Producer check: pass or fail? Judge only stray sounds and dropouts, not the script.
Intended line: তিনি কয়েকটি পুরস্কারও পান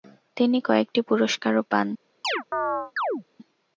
fail